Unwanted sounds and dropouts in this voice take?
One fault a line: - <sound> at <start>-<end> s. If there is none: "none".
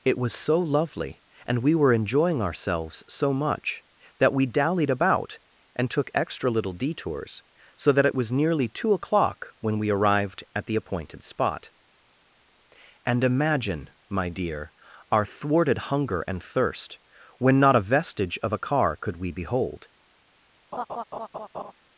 - laugh at 20.7-21.7 s